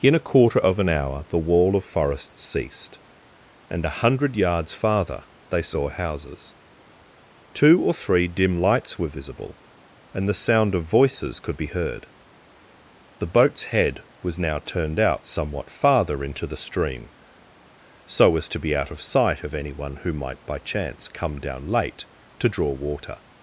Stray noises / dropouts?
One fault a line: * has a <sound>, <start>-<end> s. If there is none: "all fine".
all fine